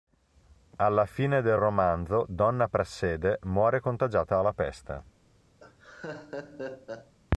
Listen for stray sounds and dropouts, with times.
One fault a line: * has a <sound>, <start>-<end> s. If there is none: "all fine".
* has a laugh, 5.6-7.1 s